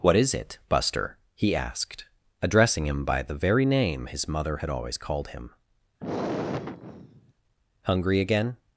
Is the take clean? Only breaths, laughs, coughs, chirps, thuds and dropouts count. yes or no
no